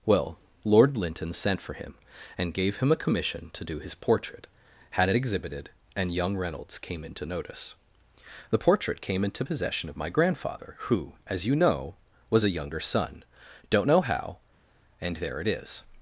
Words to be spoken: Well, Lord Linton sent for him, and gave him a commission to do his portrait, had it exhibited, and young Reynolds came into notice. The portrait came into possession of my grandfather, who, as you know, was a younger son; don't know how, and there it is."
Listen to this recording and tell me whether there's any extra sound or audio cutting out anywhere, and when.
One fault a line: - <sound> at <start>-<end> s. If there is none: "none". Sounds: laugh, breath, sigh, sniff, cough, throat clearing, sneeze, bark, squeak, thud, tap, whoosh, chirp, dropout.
none